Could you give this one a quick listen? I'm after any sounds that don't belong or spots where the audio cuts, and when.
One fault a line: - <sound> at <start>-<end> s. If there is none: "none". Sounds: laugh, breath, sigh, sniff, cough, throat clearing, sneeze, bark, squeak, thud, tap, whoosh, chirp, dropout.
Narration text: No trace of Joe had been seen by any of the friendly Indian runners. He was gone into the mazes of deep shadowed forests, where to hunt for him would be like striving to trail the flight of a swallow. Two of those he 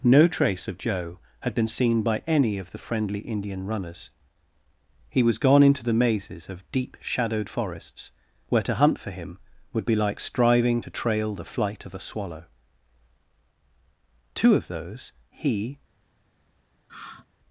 - sigh at 16.9-17.3 s